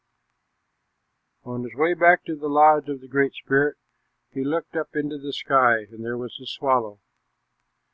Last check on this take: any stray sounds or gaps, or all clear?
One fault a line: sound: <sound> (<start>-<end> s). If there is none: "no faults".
no faults